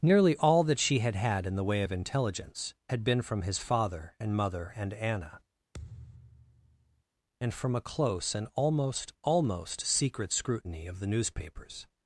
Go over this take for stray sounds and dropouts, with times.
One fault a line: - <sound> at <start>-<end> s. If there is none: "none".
- thud at 5.7-7.0 s